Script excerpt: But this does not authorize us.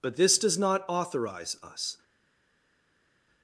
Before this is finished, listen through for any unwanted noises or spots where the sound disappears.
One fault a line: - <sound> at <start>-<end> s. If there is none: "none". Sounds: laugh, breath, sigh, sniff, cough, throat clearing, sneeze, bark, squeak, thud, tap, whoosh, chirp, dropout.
none